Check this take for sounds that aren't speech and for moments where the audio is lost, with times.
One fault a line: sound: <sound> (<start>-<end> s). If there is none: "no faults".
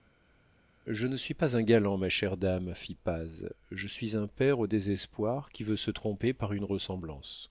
no faults